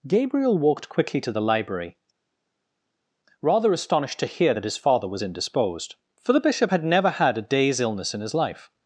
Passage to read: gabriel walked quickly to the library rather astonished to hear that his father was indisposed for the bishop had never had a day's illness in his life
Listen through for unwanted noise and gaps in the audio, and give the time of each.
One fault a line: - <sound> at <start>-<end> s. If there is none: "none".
none